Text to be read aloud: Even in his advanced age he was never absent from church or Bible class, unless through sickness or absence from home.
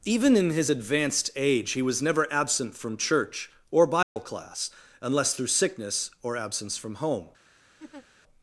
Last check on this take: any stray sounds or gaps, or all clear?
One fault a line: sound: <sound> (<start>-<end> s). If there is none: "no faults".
sound: dropout (4.0-4.2 s)
sound: laugh (7.8-8.1 s)